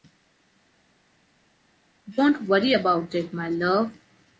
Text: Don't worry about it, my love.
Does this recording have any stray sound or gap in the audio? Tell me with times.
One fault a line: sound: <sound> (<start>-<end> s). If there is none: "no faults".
no faults